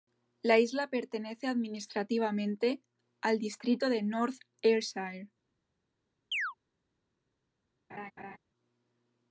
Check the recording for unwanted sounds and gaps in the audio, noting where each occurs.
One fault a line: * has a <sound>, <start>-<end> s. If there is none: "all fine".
* has a chirp, 6.3-6.5 s
* has a laugh, 7.9-8.4 s